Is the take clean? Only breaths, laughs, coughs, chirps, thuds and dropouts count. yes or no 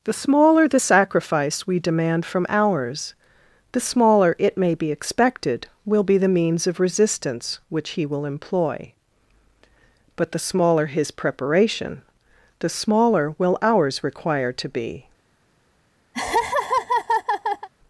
no